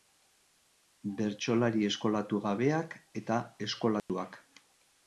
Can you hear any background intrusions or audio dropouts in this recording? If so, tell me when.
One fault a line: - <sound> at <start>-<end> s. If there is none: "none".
- dropout at 4.0-4.1 s